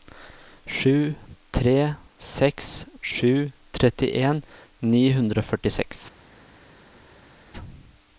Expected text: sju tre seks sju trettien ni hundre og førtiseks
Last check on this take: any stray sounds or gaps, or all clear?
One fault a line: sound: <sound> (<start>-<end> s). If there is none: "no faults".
no faults